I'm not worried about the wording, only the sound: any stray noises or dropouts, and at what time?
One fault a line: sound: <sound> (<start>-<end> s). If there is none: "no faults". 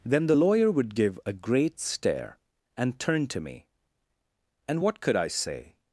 no faults